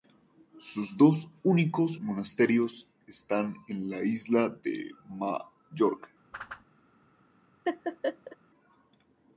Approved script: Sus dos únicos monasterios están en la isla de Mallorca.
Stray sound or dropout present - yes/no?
yes